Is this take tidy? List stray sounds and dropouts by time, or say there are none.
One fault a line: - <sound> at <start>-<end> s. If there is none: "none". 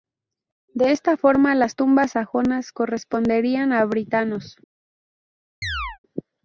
- chirp at 5.6-6.0 s